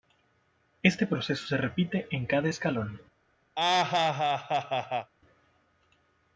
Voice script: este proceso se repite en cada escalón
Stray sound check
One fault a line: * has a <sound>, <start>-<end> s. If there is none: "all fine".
* has a laugh, 3.6-5.1 s